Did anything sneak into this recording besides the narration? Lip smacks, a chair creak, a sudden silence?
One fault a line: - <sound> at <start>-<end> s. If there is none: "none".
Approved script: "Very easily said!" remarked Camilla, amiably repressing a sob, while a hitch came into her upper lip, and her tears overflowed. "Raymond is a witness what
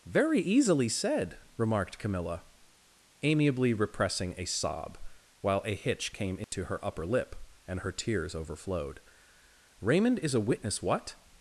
- dropout at 6.4-6.5 s